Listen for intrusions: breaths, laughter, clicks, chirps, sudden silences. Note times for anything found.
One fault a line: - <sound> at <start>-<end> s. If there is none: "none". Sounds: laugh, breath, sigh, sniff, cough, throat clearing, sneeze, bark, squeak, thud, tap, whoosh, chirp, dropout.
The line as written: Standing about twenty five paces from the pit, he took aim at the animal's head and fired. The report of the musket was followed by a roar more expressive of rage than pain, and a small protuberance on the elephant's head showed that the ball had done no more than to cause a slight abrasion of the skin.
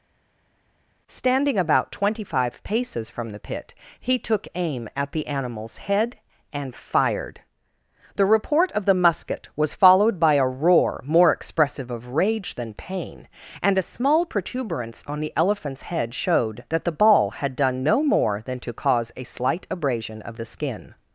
none